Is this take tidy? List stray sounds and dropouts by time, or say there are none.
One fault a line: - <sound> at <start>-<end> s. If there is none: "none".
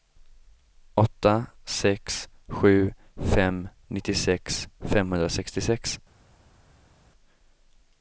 none